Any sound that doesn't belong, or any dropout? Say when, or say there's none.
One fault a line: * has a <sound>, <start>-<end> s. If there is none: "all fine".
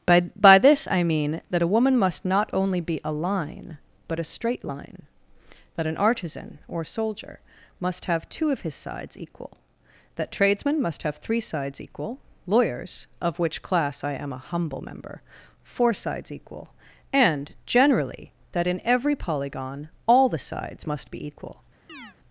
* has a chirp, 21.9-22.2 s